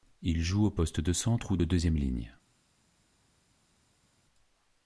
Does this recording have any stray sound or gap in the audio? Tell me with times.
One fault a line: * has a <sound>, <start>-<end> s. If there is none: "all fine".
all fine